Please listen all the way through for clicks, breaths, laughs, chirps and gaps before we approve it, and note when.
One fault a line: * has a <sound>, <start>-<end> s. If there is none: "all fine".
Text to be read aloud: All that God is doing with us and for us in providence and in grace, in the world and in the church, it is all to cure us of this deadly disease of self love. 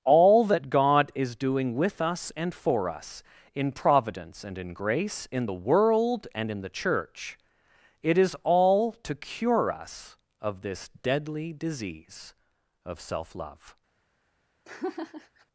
* has a laugh, 14.6-15.5 s